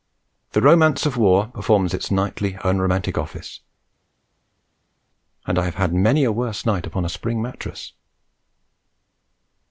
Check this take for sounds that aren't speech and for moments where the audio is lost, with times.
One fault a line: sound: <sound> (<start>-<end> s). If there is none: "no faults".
no faults